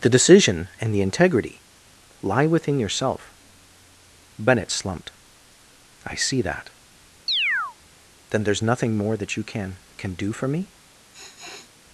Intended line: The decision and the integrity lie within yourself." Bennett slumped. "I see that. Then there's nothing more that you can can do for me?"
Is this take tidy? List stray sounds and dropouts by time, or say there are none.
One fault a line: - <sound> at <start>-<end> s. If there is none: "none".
- chirp at 7.3-7.8 s
- sniff at 11.1-11.7 s